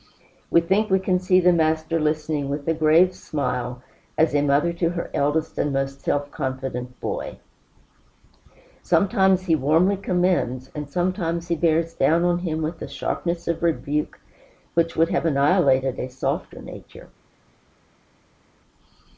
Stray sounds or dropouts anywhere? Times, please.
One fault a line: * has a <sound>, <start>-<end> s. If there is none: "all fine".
all fine